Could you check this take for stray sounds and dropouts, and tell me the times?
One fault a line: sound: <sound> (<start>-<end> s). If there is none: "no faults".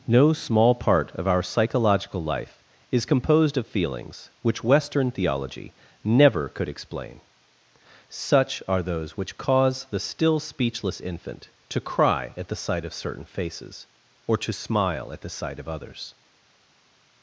no faults